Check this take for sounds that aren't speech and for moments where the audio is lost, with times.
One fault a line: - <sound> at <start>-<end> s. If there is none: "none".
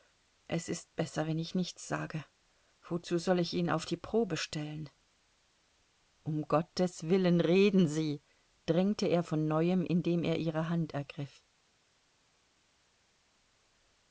none